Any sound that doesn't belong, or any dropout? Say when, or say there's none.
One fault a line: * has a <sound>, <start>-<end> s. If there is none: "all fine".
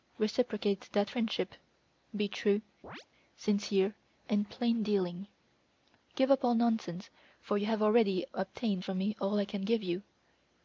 * has a chirp, 2.8-3.1 s